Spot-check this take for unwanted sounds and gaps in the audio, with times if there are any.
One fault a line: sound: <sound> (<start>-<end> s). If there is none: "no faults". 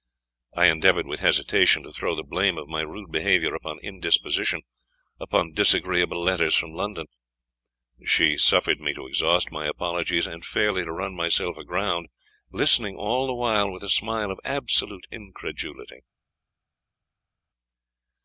no faults